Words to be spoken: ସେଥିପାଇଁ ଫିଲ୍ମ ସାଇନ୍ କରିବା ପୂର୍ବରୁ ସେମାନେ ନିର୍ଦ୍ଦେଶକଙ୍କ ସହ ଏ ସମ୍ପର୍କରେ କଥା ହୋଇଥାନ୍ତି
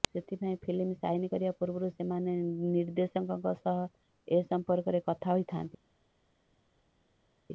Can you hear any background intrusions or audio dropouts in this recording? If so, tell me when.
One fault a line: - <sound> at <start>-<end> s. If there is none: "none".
none